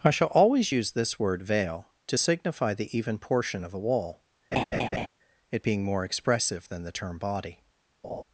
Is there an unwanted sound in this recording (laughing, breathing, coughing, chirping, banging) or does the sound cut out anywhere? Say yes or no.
yes